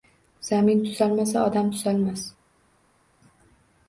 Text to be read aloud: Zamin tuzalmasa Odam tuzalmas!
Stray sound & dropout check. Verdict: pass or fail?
pass